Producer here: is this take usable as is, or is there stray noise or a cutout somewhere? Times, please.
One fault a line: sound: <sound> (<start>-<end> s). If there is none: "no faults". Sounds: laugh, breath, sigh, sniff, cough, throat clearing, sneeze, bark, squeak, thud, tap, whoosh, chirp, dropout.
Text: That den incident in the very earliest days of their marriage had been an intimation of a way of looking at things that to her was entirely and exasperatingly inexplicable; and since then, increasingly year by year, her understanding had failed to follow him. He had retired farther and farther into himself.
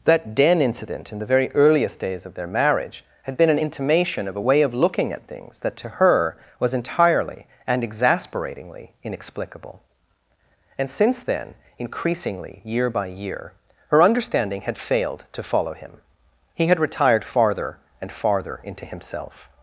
no faults